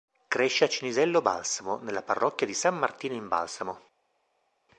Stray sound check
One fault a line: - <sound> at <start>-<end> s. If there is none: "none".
none